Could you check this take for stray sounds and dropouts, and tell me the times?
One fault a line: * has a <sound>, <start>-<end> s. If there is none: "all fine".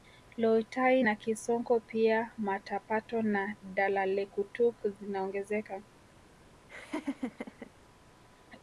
* has a laugh, 6.7-7.7 s